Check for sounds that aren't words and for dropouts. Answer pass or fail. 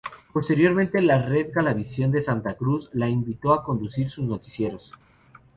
pass